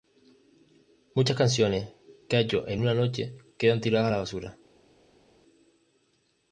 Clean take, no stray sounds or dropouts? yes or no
yes